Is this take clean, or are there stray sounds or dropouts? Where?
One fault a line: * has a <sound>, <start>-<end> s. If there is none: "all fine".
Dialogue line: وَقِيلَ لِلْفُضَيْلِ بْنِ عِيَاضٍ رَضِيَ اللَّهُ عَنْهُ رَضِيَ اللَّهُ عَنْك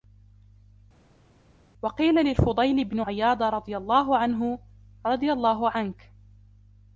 all fine